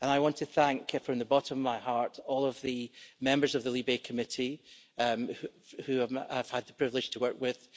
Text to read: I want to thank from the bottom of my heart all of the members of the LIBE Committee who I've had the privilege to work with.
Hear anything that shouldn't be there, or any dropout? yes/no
no